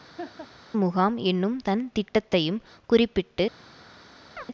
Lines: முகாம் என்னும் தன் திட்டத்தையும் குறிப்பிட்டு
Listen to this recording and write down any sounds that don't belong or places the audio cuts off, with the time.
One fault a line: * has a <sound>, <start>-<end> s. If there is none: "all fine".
* has a laugh, 0.2-0.5 s
* has a chirp, 4.4-4.5 s